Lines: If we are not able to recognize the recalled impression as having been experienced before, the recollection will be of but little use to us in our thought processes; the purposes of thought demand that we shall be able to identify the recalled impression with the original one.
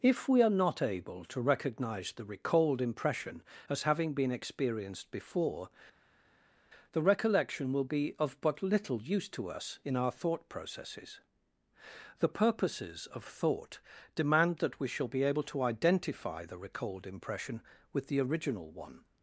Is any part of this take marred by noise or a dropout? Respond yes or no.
no